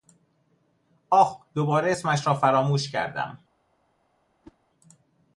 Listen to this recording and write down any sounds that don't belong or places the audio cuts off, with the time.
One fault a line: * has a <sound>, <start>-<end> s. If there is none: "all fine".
* has a whoosh, 4.4-4.6 s